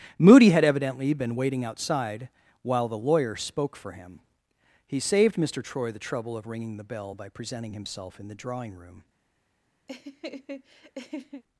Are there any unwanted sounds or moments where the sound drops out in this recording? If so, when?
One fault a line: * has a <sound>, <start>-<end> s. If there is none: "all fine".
* has a laugh, 9.9-11.4 s